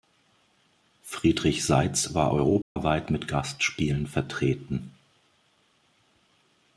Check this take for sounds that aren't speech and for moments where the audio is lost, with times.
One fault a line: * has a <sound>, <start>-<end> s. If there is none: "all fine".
* has a dropout, 2.6-2.8 s